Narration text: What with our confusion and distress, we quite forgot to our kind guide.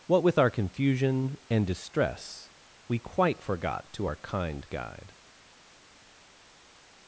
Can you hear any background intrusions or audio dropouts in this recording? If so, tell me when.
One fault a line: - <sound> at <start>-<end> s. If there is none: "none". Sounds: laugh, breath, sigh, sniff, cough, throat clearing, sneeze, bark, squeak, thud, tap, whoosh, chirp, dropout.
none